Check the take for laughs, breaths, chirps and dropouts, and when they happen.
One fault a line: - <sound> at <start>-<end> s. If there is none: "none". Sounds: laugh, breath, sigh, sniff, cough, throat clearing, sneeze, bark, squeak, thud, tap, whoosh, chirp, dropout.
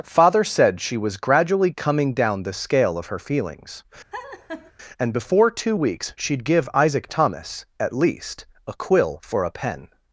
- laugh at 4.1-4.7 s